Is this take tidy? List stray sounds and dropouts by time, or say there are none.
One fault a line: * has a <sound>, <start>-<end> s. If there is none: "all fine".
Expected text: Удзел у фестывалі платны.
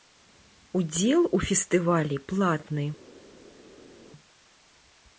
all fine